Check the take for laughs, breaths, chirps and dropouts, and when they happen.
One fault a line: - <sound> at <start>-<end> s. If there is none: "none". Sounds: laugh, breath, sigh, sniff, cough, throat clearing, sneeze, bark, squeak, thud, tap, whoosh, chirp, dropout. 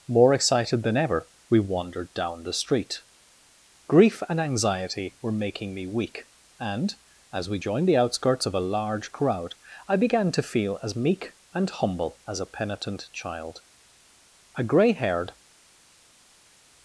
none